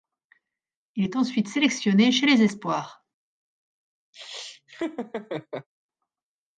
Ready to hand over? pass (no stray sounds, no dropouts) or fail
fail